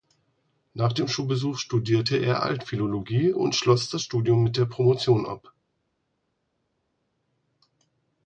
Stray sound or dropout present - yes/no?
no